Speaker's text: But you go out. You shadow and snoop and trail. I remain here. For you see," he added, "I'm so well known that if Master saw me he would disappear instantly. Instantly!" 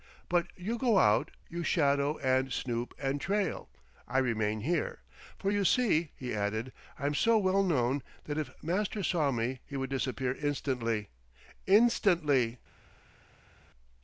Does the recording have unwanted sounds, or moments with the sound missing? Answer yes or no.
no